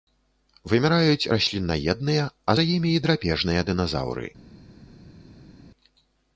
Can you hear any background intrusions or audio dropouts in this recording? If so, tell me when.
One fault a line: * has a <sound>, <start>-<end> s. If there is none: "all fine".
all fine